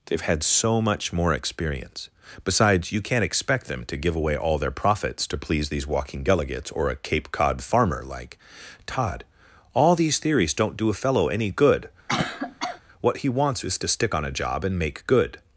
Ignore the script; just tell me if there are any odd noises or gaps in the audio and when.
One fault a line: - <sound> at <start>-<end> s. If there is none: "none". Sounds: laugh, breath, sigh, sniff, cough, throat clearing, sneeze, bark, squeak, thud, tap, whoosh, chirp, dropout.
- cough at 12.1-12.8 s